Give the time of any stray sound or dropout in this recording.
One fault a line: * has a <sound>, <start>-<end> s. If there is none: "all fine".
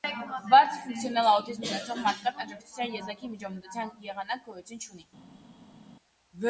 all fine